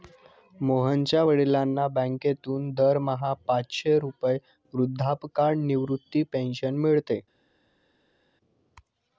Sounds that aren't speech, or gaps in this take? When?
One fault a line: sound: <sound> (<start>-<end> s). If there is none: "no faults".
no faults